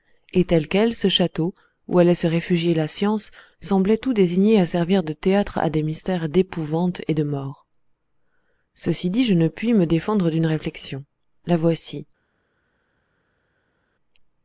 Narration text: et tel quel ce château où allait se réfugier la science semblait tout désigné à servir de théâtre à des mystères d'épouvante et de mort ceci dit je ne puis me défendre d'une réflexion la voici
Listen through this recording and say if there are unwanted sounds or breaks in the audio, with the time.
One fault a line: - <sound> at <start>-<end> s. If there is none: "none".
none